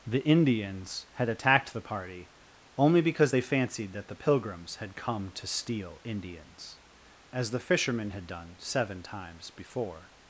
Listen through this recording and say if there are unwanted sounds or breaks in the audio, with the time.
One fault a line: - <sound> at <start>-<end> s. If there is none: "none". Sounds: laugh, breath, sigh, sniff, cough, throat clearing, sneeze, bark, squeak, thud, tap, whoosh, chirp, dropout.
none